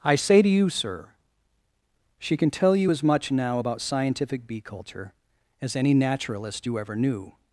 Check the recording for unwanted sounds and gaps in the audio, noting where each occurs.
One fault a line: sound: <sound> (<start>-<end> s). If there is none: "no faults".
no faults